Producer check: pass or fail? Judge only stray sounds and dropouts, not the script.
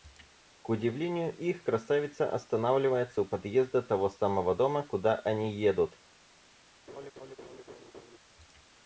fail